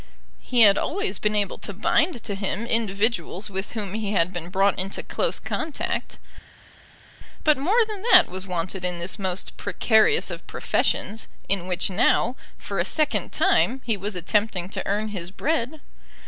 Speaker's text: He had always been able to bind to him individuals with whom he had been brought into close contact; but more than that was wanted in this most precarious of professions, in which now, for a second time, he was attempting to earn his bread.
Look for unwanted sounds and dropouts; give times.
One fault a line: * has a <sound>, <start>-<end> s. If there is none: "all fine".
all fine